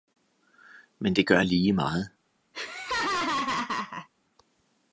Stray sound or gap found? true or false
true